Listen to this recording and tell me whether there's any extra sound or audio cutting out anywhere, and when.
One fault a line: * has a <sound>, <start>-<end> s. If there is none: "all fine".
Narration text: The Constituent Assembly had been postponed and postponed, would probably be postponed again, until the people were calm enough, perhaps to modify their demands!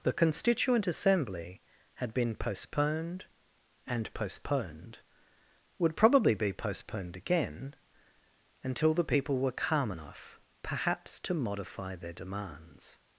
all fine